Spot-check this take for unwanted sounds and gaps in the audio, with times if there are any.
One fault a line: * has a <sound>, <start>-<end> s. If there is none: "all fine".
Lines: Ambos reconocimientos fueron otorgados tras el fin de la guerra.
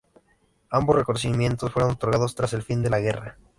all fine